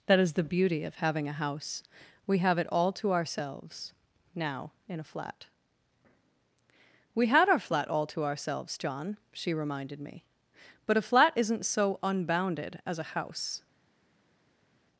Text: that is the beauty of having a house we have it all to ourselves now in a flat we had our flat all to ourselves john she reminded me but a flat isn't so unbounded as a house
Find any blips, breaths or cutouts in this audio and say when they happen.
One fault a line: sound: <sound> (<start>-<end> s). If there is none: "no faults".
no faults